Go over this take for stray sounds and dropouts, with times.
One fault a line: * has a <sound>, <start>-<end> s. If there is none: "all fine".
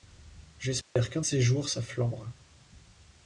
* has a dropout, 0.8-1.0 s